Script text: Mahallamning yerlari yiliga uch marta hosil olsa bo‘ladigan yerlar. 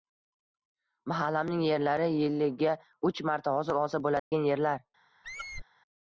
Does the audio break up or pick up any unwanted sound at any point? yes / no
yes